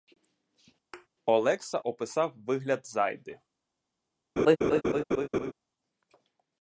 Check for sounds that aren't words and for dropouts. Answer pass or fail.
fail